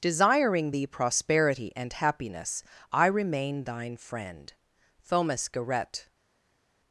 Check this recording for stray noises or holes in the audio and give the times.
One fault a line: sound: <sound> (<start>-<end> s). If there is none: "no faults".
no faults